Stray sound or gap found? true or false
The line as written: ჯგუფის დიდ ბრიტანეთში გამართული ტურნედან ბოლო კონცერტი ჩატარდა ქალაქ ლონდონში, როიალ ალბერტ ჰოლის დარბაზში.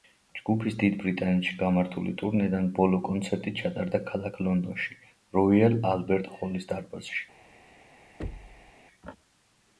true